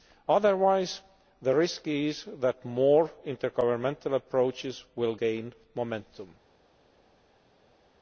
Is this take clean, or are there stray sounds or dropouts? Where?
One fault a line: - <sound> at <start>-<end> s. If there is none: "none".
none